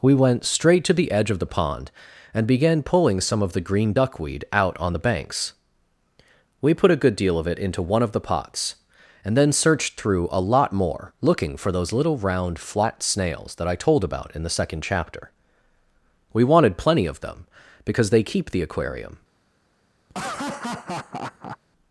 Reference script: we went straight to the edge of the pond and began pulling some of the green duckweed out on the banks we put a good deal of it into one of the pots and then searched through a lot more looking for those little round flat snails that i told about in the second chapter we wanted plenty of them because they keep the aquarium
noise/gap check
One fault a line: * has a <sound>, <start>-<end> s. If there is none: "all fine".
* has a laugh, 20.1-21.6 s